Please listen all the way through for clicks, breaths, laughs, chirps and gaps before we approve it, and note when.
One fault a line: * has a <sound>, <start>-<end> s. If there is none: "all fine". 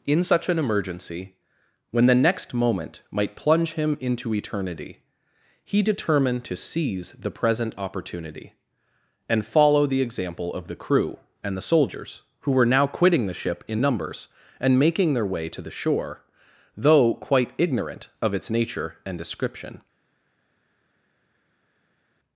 all fine